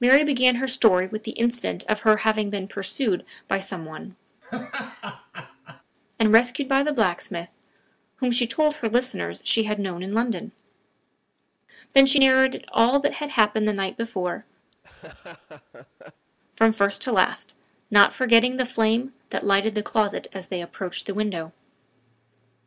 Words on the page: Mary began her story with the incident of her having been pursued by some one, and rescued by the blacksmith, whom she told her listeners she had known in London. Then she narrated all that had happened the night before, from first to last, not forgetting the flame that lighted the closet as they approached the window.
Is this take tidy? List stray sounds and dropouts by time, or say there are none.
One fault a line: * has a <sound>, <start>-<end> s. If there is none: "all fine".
* has a laugh, 4.4-5.8 s
* has a laugh, 14.7-16.3 s